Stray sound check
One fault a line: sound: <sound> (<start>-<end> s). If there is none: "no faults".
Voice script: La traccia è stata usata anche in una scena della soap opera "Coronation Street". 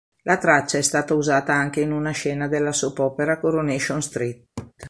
sound: laugh (4.6-4.7 s)